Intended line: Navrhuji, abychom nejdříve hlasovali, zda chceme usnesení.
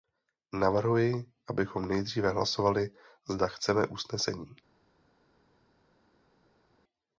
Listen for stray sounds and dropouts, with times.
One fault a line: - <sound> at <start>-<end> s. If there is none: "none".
none